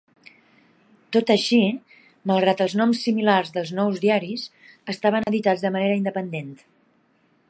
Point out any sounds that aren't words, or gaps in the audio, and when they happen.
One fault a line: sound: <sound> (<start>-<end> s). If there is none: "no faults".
sound: dropout (5.2-5.3 s)